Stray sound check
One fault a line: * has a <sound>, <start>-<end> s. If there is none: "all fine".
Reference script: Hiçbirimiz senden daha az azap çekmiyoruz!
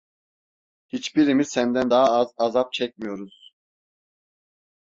all fine